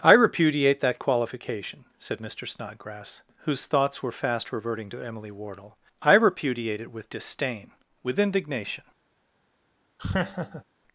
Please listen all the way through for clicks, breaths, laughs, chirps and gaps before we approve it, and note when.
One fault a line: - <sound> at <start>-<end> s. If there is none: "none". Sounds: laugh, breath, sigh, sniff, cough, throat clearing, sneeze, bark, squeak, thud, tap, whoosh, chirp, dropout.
- laugh at 10.0-10.6 s